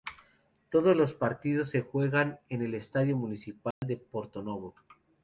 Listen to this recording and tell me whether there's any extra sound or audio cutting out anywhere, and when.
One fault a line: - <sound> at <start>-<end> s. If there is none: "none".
- dropout at 3.7-3.8 s